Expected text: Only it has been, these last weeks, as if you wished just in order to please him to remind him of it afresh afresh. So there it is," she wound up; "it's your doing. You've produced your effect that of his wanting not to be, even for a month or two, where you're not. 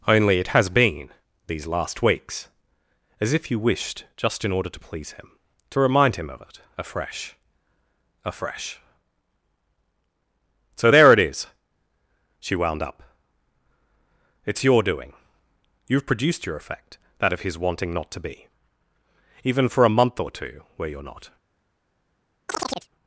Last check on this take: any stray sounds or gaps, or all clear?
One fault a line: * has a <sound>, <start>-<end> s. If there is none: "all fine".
* has a chirp, 22.5-22.9 s